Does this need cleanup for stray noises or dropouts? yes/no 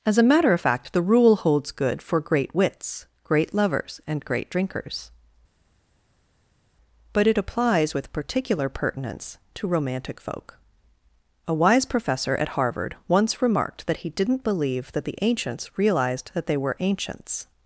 no